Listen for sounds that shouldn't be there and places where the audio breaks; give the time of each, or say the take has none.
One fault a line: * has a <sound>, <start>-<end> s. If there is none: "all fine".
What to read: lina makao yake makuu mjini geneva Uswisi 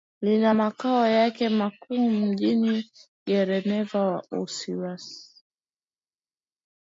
all fine